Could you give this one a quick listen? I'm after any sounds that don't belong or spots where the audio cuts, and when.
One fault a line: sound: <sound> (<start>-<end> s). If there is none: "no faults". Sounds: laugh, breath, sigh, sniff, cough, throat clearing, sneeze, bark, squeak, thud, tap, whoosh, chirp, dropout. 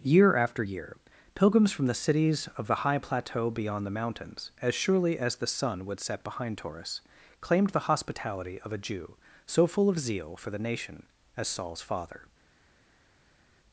no faults